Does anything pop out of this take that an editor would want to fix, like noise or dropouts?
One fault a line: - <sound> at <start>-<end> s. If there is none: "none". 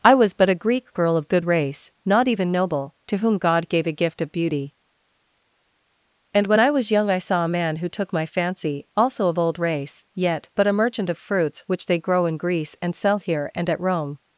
none